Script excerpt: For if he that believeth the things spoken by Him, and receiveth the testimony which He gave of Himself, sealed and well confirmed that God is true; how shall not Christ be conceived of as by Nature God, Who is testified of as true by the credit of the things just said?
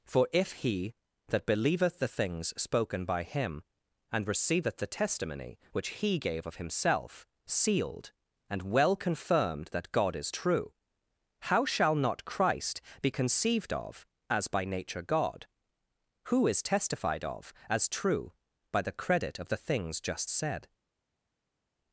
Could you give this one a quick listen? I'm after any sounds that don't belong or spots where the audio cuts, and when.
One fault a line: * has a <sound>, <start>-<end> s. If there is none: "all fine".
all fine